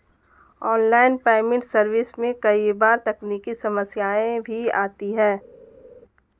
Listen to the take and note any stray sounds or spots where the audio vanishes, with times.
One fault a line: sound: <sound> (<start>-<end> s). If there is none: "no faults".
no faults